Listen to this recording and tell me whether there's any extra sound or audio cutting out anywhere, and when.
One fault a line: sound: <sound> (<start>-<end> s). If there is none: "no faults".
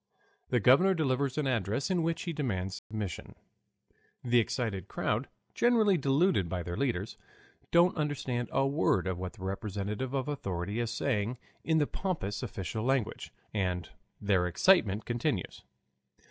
sound: dropout (2.8-2.9 s)